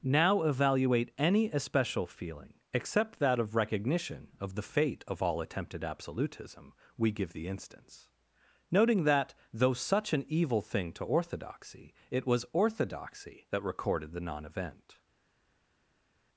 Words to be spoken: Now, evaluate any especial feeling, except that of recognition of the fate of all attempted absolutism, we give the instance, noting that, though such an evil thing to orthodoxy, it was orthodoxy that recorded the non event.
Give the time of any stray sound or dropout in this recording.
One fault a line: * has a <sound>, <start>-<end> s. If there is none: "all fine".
all fine